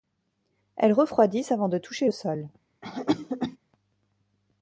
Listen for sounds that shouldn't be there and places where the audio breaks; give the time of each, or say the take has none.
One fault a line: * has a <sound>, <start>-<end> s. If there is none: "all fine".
* has a cough, 2.8-3.6 s